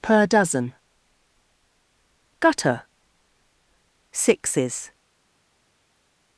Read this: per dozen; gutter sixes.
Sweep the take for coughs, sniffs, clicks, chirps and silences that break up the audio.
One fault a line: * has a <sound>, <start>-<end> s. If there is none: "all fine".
all fine